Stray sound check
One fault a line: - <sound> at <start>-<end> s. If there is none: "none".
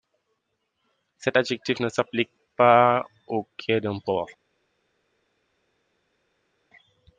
none